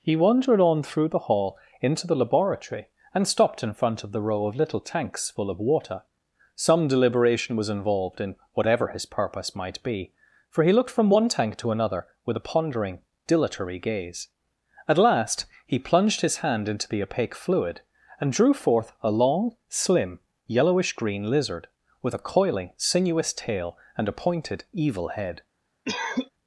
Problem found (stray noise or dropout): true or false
true